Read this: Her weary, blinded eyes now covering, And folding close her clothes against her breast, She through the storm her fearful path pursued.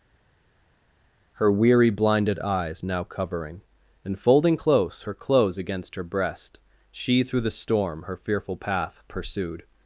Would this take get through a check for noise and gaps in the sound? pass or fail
pass